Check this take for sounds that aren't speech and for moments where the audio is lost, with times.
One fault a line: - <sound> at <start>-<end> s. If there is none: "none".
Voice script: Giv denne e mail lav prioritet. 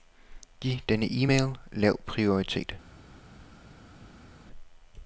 none